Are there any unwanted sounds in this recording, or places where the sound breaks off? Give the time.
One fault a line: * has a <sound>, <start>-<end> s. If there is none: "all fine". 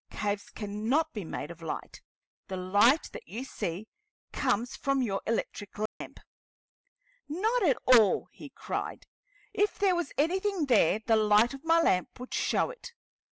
* has a dropout, 5.9-6.0 s